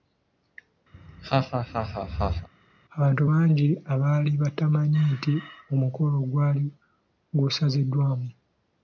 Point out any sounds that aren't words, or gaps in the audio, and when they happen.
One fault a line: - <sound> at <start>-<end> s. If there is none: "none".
- laugh at 0.9-2.5 s